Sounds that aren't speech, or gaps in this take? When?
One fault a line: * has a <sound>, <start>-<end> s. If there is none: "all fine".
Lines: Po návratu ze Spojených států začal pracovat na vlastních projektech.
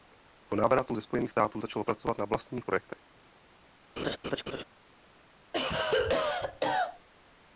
* has a laugh, 4.0-4.6 s
* has a cough, 5.5-7.1 s